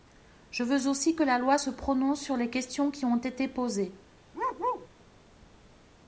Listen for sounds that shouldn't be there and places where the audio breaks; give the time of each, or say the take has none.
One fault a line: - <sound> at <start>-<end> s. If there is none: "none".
- bark at 4.3-4.9 s